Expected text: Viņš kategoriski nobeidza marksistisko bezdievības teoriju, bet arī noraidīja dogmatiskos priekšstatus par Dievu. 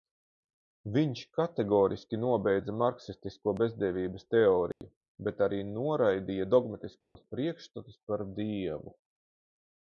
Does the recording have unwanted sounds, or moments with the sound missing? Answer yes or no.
yes